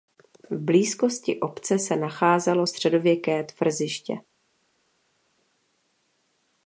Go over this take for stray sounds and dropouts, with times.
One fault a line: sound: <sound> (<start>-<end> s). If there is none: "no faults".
no faults